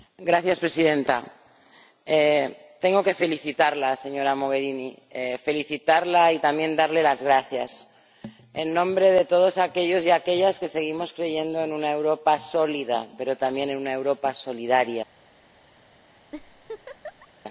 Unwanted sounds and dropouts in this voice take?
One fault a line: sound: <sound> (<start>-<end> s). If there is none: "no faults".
sound: laugh (16.3-17.3 s)